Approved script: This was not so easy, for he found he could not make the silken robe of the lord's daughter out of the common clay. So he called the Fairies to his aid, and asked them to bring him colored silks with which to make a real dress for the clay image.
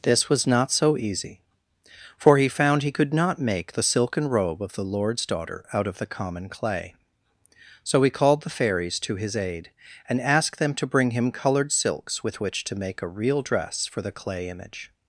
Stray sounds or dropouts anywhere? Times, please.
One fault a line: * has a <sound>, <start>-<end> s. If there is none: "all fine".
all fine